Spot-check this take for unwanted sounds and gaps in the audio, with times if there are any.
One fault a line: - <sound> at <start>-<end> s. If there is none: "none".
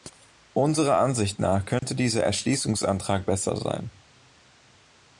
- dropout at 1.8-1.8 s